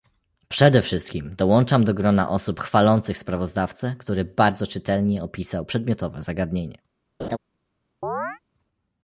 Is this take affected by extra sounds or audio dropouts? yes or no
yes